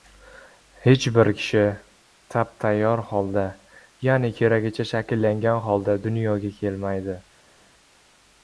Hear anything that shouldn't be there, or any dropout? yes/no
no